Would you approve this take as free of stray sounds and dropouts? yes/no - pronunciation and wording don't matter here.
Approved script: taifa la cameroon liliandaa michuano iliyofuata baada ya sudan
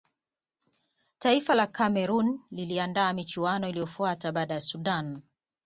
yes